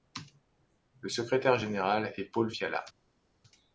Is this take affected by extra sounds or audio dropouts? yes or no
no